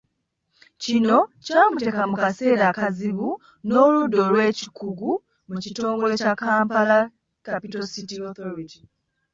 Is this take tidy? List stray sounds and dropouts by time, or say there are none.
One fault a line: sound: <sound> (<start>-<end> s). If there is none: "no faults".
no faults